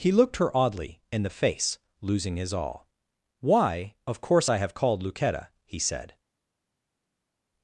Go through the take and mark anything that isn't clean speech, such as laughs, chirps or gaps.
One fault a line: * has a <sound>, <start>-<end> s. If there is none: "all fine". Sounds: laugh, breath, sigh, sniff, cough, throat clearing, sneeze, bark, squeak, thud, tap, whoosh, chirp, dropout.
all fine